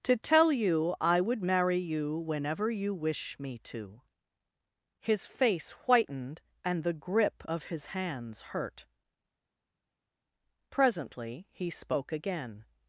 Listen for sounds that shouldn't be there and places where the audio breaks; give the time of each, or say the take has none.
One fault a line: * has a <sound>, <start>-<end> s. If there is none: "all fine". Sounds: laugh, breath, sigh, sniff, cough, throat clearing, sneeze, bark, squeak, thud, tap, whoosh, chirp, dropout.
all fine